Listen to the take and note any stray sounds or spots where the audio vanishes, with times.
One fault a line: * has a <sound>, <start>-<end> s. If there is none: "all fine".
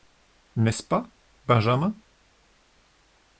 all fine